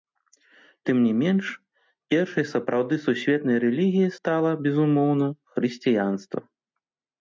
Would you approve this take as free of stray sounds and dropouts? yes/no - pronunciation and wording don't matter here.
yes